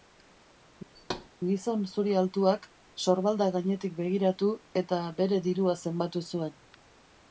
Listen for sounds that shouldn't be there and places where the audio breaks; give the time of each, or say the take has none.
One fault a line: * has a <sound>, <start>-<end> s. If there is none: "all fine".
* has a thud, 0.9-1.3 s